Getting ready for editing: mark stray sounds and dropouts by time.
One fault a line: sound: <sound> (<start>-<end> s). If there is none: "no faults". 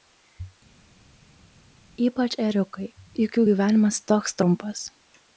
no faults